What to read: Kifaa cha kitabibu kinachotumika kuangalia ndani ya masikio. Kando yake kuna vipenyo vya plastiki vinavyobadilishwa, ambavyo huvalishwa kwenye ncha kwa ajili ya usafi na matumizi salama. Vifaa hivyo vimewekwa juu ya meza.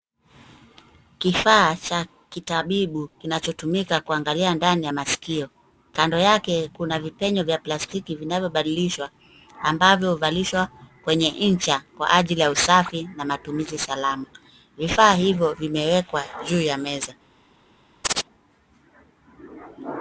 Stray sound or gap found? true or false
true